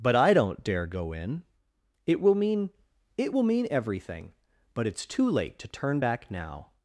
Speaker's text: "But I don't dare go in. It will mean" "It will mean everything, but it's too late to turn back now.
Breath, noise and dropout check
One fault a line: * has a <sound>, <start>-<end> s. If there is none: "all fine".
all fine